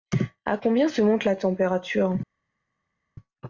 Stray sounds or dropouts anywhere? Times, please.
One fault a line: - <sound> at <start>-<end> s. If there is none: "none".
none